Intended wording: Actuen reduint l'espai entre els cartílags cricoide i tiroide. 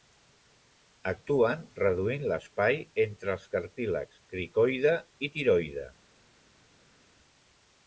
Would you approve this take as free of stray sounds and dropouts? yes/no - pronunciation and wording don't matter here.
yes